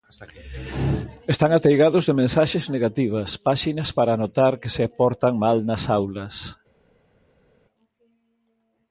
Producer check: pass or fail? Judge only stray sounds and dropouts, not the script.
pass